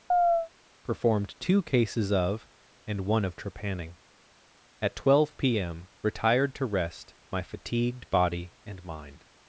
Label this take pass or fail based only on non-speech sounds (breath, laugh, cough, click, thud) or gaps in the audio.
fail